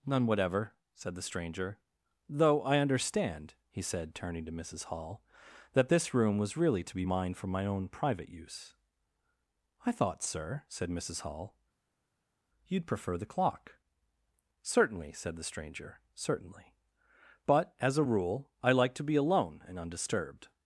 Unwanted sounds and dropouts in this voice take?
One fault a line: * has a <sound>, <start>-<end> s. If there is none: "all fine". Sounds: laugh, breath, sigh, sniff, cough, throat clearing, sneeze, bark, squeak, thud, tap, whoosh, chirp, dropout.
all fine